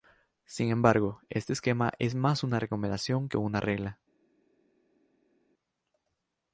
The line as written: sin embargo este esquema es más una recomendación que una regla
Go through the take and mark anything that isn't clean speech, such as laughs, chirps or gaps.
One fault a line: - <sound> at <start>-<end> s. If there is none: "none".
none